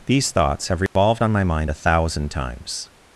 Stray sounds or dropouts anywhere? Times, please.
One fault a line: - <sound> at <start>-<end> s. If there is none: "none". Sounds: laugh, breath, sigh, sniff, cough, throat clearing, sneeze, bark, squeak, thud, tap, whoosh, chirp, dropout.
- dropout at 0.9-1.0 s